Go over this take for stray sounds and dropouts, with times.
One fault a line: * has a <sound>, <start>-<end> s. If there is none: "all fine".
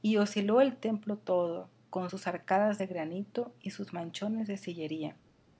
all fine